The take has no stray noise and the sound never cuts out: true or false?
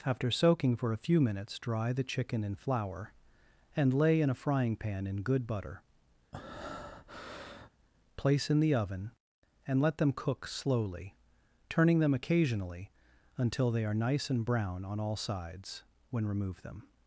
false